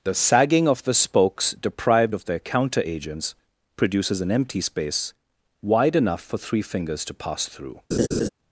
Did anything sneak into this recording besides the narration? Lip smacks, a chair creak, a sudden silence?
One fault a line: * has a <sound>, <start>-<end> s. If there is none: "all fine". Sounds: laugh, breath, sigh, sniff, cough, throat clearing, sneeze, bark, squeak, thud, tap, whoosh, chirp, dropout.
* has a laugh, 7.9-8.3 s